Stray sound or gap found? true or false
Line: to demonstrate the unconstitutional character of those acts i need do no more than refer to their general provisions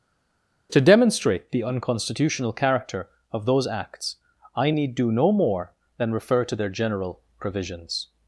false